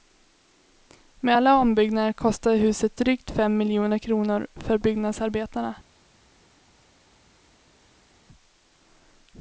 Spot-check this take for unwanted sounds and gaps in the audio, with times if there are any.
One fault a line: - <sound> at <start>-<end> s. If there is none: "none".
none